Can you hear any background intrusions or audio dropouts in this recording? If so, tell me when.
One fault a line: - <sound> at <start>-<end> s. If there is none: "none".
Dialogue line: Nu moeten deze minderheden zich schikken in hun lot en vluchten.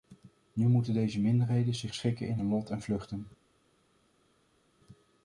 none